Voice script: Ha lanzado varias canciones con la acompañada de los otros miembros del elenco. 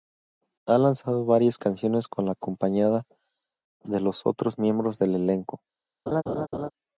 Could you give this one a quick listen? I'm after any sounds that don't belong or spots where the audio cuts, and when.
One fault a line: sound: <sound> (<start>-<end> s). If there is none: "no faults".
sound: laugh (6.1-6.7 s)